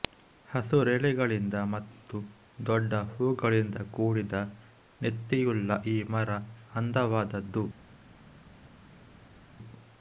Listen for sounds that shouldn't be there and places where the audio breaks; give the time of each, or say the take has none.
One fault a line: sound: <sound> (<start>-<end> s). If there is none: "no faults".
no faults